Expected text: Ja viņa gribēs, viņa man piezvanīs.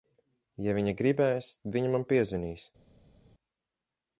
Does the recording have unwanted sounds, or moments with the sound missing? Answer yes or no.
no